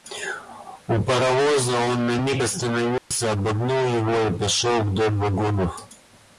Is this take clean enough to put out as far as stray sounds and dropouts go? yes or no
no